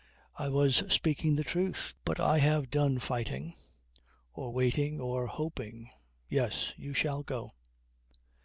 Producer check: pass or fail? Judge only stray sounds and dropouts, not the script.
pass